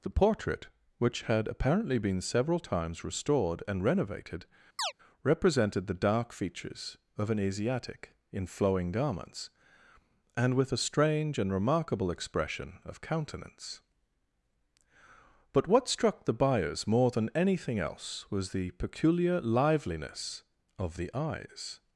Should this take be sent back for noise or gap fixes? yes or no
yes